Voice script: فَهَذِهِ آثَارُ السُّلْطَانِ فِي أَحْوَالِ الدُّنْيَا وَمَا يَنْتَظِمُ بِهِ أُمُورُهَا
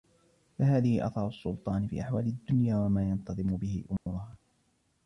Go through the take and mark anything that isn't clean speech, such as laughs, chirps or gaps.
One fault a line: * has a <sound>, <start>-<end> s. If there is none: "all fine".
* has a dropout, 4.0-4.1 s